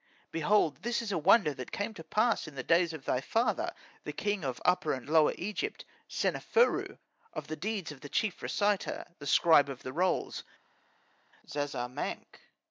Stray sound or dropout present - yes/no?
no